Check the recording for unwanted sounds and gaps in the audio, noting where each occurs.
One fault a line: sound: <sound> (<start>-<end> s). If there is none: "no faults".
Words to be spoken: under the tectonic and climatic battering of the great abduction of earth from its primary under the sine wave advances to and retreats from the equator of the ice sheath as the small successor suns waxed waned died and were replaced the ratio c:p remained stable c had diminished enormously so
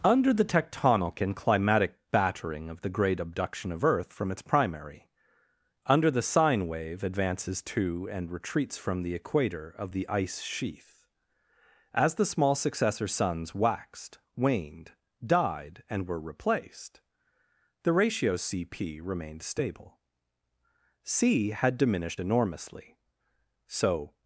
no faults